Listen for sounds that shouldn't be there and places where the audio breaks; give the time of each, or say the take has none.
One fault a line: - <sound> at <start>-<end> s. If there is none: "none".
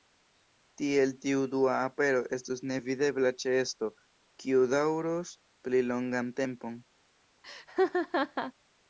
- laugh at 7.4-8.5 s